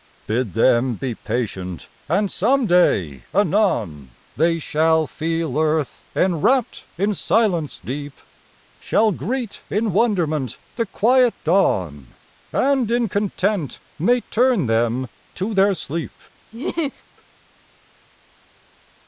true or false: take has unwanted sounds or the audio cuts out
true